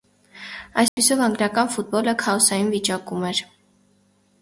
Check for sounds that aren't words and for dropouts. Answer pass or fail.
fail